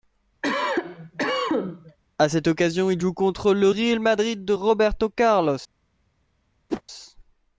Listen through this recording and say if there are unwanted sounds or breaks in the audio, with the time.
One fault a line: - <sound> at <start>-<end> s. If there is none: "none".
- cough at 0.4-2.0 s
- whoosh at 6.7-6.8 s